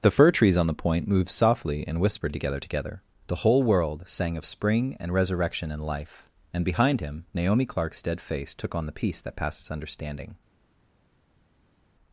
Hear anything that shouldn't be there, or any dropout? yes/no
no